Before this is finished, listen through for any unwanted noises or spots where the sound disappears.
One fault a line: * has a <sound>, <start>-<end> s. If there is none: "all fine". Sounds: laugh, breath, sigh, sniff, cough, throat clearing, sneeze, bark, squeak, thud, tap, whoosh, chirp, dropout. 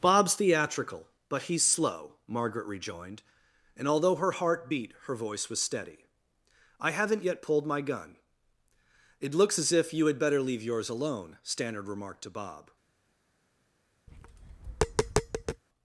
* has a tap, 14.1-15.6 s